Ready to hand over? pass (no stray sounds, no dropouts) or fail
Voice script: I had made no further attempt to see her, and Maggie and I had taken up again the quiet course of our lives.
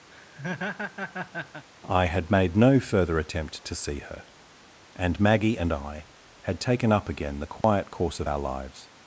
fail